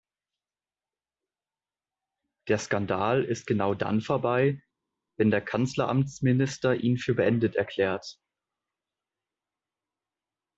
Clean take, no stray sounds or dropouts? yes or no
yes